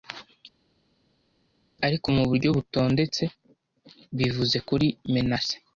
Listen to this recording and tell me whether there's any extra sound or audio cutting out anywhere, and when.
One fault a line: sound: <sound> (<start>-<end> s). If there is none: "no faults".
no faults